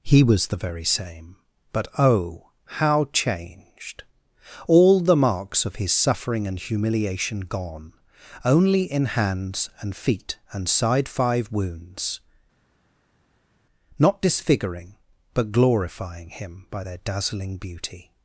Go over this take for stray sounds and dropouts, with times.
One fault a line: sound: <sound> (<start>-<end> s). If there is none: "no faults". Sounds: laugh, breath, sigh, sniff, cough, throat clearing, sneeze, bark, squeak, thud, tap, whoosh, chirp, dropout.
no faults